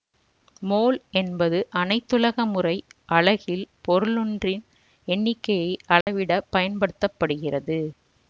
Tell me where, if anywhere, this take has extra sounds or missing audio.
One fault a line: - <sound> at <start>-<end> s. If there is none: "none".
- dropout at 6.0-6.1 s